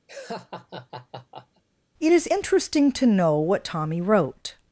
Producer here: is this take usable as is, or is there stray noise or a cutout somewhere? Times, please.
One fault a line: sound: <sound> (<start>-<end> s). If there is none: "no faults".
sound: laugh (0.1-1.6 s)